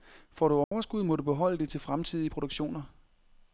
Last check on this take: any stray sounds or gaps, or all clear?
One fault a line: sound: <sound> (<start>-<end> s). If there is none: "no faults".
sound: dropout (0.6-0.7 s)